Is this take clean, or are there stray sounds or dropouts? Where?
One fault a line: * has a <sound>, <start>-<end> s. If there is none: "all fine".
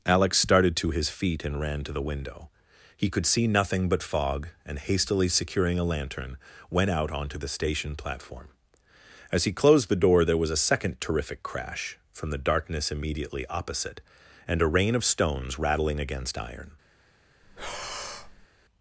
* has a breath, 17.4-18.5 s